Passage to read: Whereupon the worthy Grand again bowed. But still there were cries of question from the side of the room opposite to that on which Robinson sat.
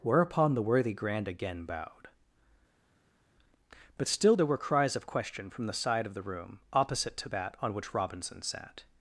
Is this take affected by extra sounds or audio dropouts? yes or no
no